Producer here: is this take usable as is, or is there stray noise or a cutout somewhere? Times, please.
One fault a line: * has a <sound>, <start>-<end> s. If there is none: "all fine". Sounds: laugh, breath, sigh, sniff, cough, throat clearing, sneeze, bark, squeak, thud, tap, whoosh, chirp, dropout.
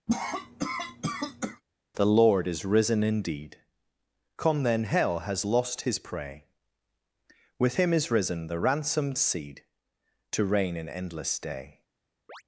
* has a cough, 0.1-1.6 s
* has a chirp, 12.3-12.4 s